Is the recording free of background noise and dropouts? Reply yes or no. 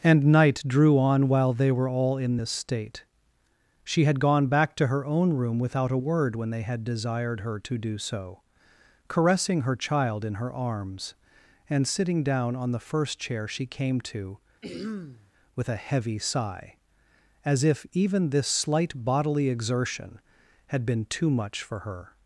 no